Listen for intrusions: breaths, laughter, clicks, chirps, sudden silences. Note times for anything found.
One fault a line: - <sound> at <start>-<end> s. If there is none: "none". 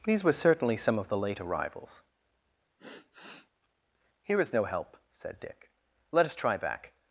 - sigh at 2.8-3.5 s